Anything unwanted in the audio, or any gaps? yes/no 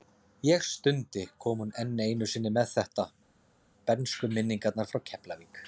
no